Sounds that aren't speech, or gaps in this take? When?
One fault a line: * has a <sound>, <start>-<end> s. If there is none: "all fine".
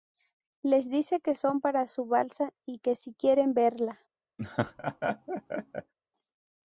* has a laugh, 4.4-5.9 s